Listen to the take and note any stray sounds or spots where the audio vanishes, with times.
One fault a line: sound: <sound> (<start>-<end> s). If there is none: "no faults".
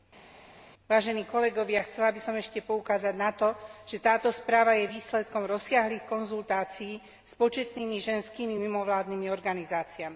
no faults